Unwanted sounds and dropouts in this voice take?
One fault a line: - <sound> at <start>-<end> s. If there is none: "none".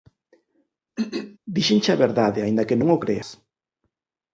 - throat clearing at 1.0-1.4 s